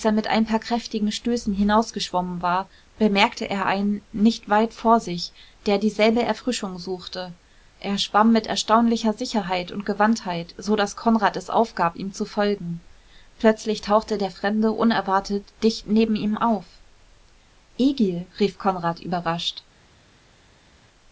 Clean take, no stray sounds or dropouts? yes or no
yes